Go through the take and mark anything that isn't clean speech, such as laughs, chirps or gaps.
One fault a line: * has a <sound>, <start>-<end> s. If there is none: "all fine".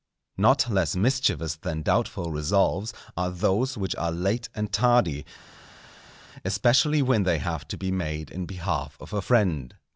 all fine